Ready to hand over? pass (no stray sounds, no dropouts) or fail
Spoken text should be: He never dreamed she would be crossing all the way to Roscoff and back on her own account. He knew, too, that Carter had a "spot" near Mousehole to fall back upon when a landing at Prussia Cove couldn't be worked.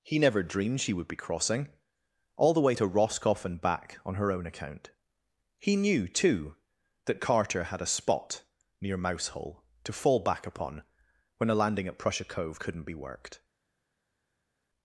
pass